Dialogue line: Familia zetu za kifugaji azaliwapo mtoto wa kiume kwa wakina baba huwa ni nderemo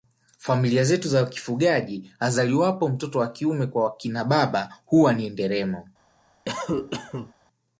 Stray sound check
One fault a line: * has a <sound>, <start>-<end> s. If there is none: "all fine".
* has a cough, 6.5-7.3 s